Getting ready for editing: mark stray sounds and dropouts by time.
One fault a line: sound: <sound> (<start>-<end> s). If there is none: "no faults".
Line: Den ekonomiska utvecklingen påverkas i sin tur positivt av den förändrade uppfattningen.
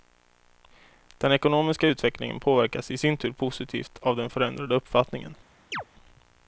sound: chirp (5.7-5.8 s)